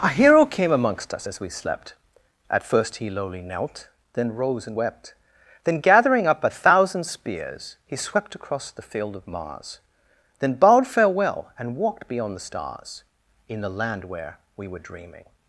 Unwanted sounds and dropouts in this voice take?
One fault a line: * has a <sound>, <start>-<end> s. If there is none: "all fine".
all fine